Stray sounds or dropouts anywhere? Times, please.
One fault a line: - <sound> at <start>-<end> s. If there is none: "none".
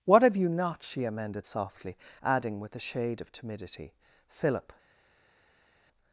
none